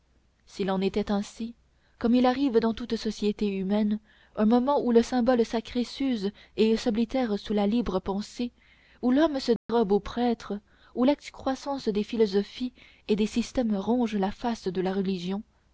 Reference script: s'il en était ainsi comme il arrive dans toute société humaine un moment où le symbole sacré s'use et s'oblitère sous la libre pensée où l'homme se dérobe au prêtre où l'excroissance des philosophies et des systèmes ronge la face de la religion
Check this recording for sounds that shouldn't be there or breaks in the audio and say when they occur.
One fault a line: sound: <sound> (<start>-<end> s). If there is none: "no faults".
sound: dropout (9.6-9.7 s)